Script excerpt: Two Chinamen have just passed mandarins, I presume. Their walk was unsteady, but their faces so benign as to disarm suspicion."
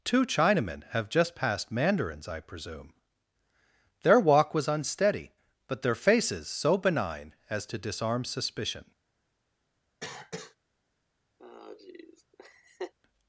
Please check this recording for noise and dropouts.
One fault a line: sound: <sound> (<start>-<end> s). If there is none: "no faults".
sound: cough (10.0-10.6 s)
sound: laugh (11.4-12.9 s)